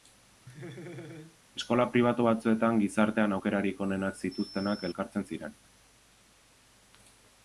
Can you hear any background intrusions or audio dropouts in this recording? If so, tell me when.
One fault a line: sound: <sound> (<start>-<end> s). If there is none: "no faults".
sound: laugh (0.5-1.4 s)